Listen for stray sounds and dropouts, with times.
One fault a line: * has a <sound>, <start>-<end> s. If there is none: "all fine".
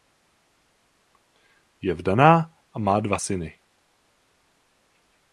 all fine